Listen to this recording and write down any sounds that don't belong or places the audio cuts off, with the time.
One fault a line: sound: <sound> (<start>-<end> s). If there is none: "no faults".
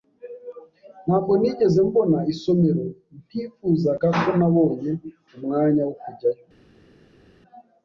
no faults